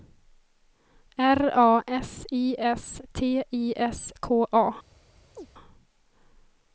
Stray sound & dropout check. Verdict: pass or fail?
fail